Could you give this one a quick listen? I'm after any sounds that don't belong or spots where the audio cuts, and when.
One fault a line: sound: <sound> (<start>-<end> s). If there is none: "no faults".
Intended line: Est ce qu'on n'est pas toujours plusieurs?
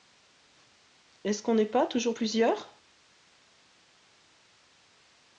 no faults